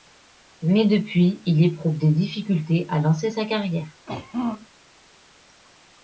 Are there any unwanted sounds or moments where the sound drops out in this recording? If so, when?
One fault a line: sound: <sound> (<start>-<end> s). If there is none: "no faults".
sound: throat clearing (4.1-4.7 s)